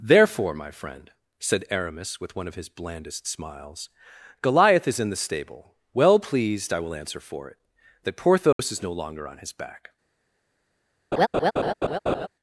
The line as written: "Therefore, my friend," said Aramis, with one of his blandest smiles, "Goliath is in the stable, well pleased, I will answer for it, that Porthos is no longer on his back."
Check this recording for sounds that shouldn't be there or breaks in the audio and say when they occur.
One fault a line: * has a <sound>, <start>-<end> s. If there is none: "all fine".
* has a dropout, 8.5-8.6 s
* has a laugh, 11.1-12.3 s